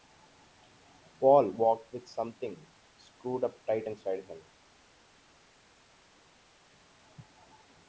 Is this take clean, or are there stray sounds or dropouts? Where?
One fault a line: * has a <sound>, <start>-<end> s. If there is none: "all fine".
all fine